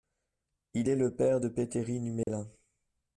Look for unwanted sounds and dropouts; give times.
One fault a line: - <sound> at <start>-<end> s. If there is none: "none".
- dropout at 2.2-2.3 s